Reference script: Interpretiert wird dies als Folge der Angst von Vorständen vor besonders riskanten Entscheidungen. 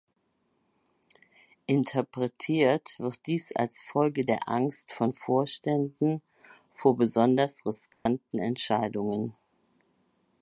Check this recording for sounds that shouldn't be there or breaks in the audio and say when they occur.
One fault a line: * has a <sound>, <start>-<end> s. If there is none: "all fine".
* has a dropout, 7.9-8.1 s